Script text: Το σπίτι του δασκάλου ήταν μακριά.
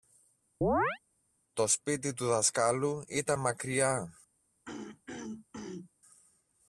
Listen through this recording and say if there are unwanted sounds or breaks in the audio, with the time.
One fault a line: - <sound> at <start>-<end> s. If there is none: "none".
- chirp at 0.6-1.0 s
- throat clearing at 4.7-5.9 s